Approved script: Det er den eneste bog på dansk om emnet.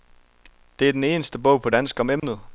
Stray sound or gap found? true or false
true